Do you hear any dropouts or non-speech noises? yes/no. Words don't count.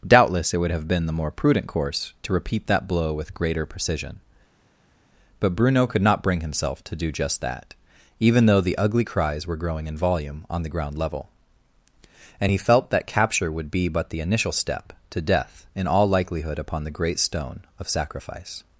no